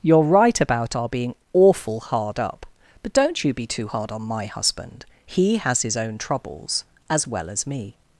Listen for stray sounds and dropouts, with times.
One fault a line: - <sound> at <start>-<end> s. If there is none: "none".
none